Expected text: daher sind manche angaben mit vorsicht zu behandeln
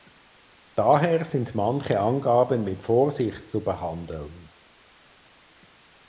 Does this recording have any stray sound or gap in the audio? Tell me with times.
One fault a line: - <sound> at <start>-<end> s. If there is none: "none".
none